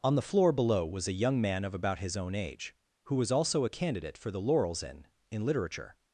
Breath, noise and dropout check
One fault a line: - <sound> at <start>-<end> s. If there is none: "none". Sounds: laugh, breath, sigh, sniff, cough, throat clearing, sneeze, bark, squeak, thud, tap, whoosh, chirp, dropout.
none